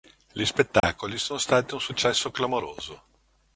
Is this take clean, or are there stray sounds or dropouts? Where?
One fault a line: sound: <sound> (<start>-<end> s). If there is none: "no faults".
sound: dropout (0.8-0.8 s)